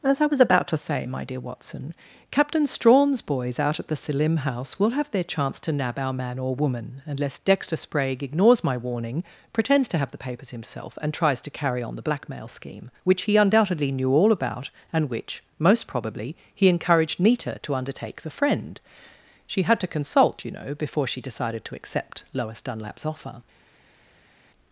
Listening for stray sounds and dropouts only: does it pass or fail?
pass